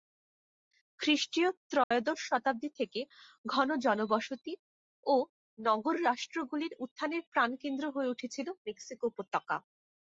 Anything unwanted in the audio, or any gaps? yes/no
yes